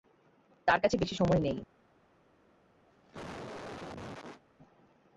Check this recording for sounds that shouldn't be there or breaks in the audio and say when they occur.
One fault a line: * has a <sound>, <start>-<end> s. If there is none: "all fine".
* has a cough, 2.9-4.4 s